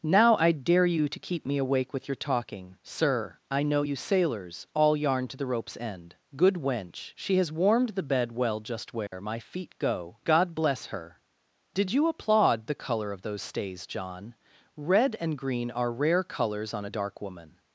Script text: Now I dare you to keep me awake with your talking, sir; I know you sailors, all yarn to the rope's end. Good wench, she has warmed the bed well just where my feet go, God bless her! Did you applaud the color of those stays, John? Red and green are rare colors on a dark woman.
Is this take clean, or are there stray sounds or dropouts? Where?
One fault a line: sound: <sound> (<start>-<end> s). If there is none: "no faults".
sound: dropout (9.1-9.1 s)